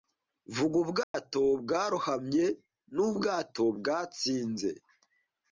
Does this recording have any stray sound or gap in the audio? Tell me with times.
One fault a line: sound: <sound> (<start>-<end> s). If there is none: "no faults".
sound: dropout (1.0-1.1 s)